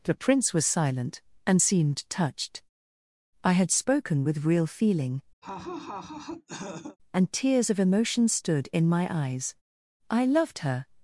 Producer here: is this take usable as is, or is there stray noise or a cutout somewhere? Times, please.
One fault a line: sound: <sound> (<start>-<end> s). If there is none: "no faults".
sound: laugh (5.4-7.0 s)